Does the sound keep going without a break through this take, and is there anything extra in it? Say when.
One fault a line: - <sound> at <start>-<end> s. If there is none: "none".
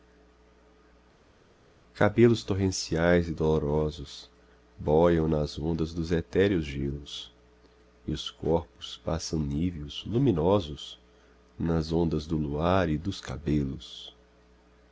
none